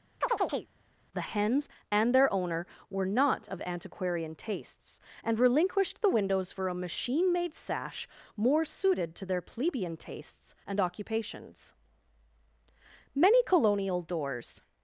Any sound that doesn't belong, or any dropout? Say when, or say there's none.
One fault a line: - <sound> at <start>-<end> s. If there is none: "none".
- chirp at 0.2-0.7 s